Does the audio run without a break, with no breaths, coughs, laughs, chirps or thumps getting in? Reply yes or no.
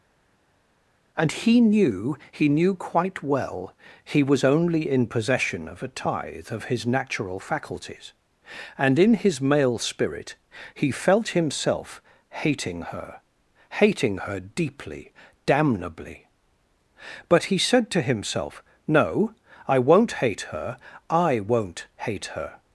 yes